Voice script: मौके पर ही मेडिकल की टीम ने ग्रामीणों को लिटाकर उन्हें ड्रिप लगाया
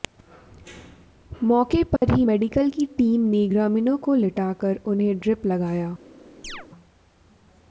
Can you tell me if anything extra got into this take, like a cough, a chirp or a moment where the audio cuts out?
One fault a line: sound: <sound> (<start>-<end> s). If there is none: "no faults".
sound: dropout (2.0-2.0 s)
sound: chirp (6.4-6.7 s)